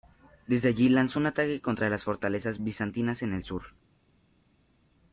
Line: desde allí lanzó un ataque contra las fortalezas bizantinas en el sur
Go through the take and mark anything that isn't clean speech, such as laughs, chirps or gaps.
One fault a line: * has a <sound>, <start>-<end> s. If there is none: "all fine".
all fine